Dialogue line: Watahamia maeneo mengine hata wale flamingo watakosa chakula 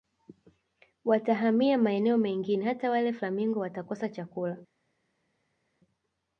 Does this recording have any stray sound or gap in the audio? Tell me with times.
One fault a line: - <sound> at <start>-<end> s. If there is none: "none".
none